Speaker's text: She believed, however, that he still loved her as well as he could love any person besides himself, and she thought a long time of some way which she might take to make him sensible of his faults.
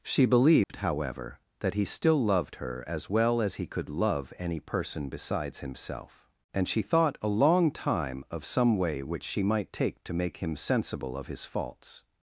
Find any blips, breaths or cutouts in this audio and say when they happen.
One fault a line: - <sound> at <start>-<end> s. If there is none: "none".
- dropout at 0.6-0.7 s